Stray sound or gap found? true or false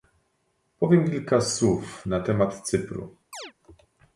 true